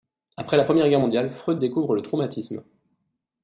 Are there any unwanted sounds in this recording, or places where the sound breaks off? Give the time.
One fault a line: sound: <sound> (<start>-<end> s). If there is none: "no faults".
no faults